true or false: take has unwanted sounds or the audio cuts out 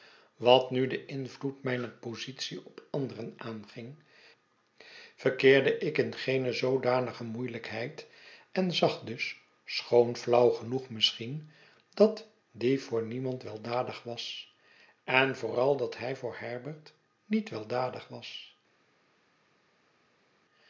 false